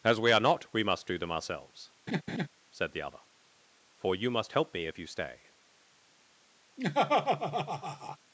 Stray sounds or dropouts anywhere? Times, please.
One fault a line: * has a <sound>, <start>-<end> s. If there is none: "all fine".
* has a laugh, 2.1-2.5 s
* has a laugh, 6.8-8.2 s